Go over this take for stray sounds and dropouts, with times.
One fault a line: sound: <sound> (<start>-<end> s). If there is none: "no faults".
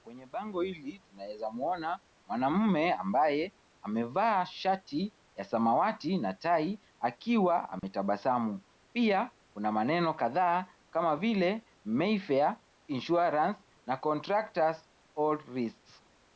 sound: dropout (7.8-7.8 s)